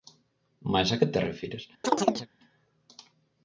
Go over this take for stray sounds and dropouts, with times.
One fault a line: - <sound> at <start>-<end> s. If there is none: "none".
- chirp at 1.8-2.3 s